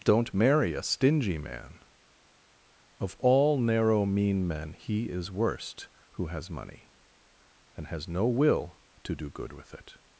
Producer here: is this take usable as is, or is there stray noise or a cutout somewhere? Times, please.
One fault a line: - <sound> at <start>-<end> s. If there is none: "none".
none